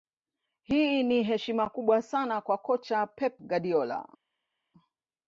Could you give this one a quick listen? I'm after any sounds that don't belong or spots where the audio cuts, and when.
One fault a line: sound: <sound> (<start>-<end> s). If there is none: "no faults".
no faults